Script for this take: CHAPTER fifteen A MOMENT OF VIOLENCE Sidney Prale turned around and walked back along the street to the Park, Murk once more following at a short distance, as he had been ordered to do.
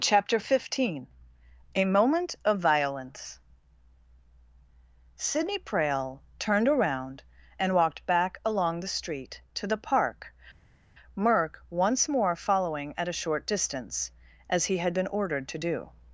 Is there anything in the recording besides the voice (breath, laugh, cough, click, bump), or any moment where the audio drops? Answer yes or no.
no